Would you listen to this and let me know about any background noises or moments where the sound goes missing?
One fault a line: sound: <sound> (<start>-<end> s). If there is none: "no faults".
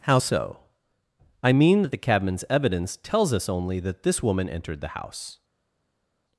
no faults